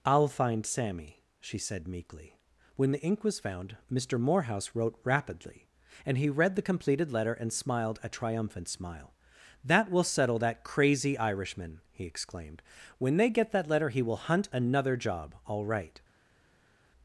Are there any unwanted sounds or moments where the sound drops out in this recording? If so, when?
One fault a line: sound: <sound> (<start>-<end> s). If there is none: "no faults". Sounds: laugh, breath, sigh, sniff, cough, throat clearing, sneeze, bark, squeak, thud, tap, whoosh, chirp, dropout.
no faults